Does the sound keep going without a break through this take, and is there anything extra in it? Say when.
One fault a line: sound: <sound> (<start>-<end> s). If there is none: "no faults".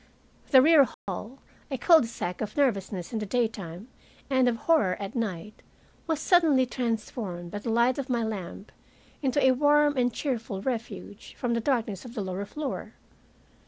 sound: dropout (0.9-1.1 s)